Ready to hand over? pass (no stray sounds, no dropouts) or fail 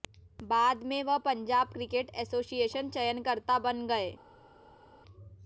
pass